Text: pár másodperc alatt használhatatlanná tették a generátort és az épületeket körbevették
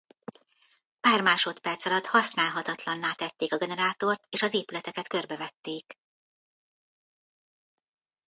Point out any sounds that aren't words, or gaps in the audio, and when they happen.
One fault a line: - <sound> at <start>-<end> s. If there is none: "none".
none